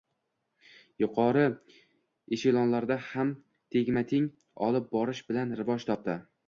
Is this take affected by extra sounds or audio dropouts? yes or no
no